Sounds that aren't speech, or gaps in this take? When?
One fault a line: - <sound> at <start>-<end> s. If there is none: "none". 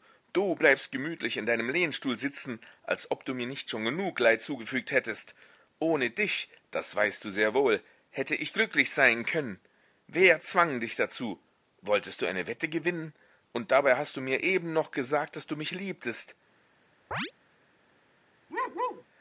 - chirp at 17.1-17.3 s
- bark at 18.5-19.0 s